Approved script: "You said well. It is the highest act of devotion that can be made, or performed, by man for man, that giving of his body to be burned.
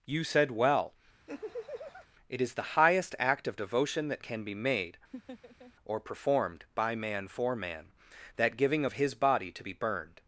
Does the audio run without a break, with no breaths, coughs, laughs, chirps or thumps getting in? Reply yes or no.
no